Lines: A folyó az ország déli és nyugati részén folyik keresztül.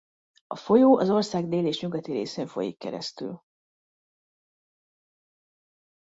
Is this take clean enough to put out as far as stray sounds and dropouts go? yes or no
yes